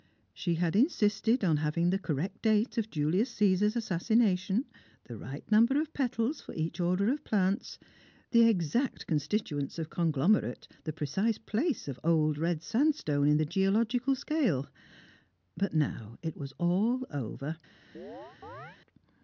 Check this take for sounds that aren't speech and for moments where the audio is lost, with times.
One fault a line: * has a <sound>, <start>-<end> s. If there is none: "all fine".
* has a chirp, 17.9-18.8 s